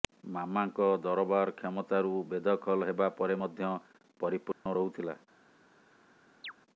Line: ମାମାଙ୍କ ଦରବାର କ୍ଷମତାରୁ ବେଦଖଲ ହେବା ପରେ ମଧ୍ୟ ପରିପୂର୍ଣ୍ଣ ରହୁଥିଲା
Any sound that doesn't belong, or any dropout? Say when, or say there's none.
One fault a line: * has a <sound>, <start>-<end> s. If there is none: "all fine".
* has a dropout, 4.5-4.7 s
* has a chirp, 6.4-6.5 s